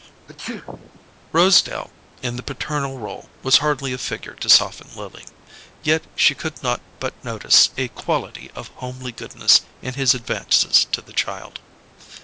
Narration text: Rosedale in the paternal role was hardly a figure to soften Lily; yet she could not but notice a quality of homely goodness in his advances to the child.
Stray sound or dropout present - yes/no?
yes